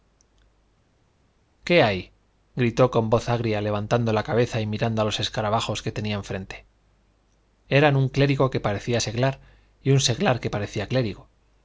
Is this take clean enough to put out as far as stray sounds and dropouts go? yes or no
yes